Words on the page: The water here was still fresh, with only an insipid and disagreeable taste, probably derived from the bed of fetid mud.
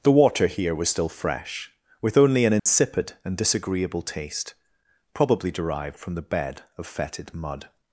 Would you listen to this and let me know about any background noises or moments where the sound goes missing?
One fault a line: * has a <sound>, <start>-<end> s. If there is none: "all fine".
* has a dropout, 2.6-2.7 s